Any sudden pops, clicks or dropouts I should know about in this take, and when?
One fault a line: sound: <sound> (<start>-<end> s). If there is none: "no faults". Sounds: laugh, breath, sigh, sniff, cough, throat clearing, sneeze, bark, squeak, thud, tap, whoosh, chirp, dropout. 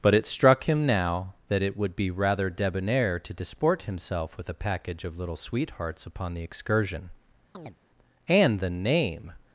sound: chirp (7.5-7.8 s)